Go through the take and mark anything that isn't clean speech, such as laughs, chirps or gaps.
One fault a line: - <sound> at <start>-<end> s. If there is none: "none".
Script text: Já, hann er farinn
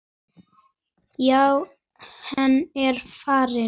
- dropout at 2.3-2.4 s